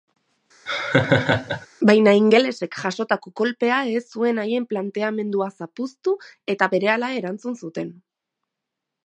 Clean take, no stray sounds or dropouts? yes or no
no